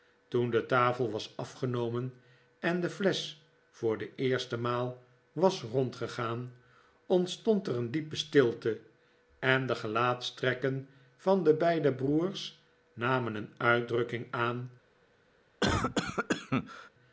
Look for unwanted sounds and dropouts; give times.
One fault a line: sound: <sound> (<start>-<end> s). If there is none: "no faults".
sound: cough (15.6-16.9 s)